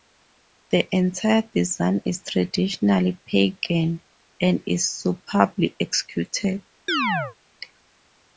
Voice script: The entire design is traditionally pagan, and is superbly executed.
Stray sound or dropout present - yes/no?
yes